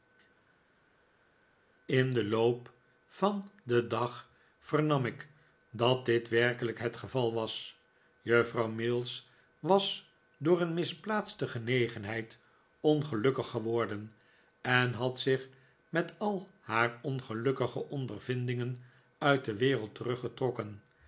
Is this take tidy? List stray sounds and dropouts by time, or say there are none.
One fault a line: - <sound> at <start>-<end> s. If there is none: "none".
none